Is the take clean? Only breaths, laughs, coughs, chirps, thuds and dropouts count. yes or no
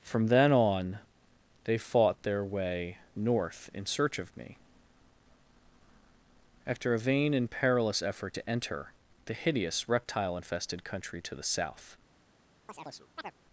no